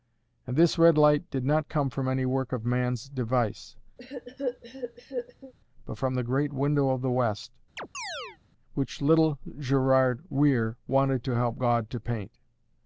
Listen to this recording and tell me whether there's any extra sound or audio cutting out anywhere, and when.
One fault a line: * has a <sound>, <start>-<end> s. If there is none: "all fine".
* has a cough, 4.0-5.5 s
* has a chirp, 7.8-8.4 s